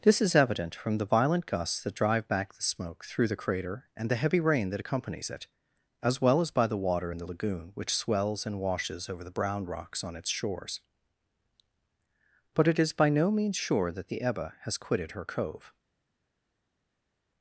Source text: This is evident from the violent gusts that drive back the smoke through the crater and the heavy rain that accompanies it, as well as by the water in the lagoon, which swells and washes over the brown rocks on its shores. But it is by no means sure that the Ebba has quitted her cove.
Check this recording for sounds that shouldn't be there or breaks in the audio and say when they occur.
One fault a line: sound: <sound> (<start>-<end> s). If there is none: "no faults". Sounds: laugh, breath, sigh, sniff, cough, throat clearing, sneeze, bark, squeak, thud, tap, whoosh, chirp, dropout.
no faults